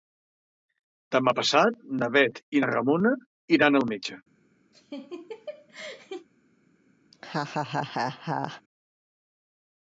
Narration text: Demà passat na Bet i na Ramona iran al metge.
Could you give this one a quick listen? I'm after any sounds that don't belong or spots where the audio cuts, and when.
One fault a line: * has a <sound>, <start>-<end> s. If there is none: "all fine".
* has a laugh, 4.7-6.3 s
* has a laugh, 7.1-8.6 s